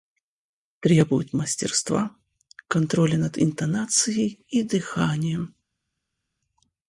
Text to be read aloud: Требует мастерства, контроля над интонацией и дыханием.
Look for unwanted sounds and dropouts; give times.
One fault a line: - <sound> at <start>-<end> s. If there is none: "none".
none